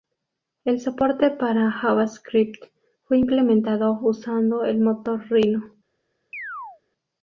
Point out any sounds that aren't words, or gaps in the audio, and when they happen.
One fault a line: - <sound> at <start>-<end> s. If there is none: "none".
- chirp at 6.3-6.8 s